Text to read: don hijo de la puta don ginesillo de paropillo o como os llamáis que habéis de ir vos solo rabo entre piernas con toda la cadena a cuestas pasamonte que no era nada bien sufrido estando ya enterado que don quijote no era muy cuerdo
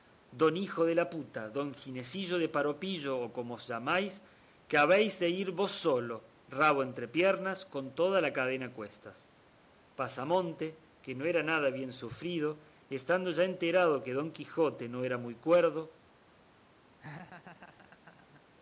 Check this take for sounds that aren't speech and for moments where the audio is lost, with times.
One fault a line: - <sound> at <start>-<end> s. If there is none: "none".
- laugh at 17.0-18.4 s